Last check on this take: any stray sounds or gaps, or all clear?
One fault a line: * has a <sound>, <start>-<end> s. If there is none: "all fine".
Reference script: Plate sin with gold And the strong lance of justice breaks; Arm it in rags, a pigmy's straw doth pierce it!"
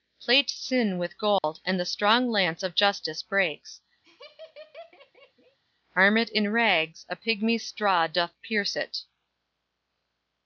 * has a dropout, 1.4-1.4 s
* has a laugh, 4.0-5.6 s